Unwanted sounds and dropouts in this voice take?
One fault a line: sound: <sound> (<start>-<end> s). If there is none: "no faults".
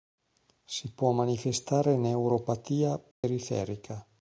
sound: dropout (3.1-3.2 s)